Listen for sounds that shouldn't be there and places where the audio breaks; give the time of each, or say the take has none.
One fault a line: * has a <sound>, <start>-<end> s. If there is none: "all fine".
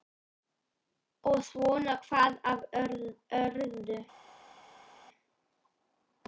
all fine